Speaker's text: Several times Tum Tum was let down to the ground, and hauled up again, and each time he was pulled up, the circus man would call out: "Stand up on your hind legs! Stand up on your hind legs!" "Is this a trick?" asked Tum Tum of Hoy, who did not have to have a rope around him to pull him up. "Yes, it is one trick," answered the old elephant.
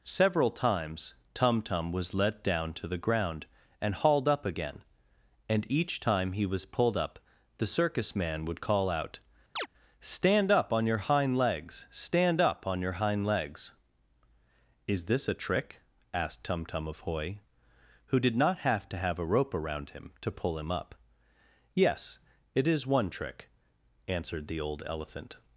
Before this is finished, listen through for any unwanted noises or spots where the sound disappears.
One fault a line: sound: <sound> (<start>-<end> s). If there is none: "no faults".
sound: chirp (9.6-9.7 s)